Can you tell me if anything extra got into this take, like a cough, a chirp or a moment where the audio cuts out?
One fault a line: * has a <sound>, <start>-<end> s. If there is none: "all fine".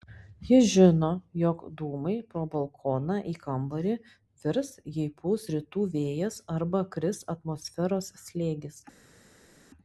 all fine